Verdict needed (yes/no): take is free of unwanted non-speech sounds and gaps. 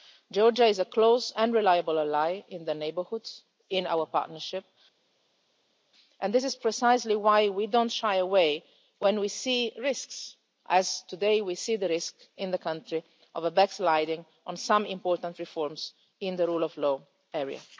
yes